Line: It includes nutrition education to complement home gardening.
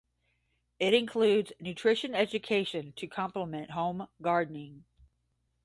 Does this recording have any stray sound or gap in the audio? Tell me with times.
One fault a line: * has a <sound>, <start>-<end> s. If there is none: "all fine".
all fine